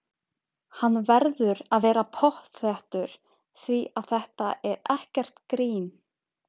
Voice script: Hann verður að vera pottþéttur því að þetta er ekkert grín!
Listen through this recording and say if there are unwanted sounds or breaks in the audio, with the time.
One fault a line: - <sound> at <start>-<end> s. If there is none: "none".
none